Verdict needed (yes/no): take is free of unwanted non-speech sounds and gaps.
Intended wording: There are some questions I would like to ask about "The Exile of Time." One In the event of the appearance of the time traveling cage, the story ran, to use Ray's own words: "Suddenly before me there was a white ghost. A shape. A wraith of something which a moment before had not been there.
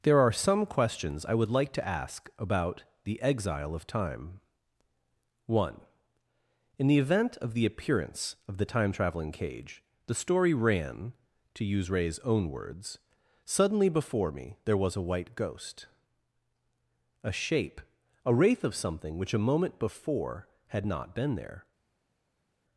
yes